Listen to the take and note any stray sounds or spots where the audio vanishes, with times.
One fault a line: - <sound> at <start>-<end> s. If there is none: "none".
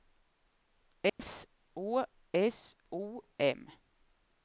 - dropout at 1.1-1.2 s